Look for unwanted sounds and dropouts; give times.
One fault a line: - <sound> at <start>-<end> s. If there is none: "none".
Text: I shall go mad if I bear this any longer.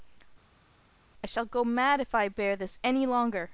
none